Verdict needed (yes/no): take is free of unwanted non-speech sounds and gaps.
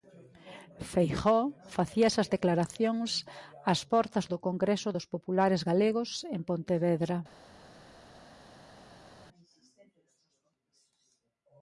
yes